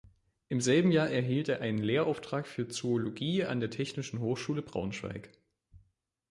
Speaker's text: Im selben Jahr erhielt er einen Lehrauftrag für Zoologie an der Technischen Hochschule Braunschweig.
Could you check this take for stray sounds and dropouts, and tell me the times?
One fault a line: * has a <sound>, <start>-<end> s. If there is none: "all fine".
all fine